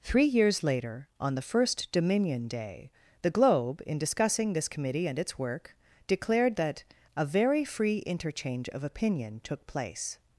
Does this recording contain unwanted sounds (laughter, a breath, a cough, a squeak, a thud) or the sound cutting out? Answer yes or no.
no